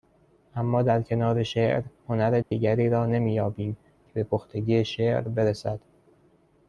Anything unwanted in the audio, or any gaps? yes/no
yes